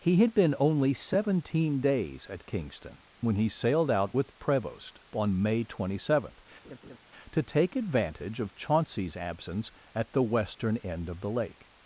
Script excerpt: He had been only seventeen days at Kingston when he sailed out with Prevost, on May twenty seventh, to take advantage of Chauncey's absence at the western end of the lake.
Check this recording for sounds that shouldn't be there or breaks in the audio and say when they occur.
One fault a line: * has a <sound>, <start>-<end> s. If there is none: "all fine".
* has a laugh, 6.6-7.0 s